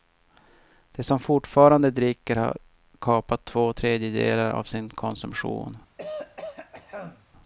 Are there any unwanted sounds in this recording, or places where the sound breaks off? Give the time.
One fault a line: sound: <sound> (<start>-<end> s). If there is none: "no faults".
sound: throat clearing (6.0-7.3 s)